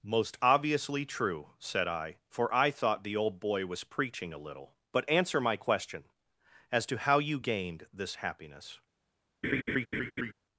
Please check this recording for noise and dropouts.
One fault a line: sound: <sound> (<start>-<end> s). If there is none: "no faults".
sound: laugh (9.4-10.3 s)